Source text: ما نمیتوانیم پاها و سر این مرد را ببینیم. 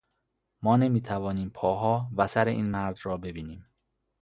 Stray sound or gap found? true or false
false